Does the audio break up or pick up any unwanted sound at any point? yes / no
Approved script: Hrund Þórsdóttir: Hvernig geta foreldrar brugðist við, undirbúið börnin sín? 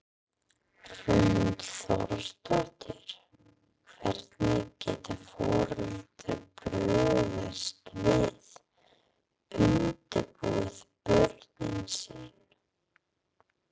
no